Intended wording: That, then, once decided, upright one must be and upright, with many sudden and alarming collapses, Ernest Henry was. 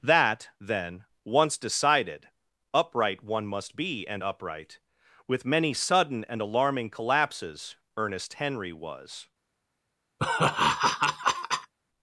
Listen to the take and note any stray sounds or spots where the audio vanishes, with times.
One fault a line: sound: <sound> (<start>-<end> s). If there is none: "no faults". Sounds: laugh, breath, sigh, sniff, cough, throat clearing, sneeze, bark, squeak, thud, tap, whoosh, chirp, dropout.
sound: laugh (10.2-11.7 s)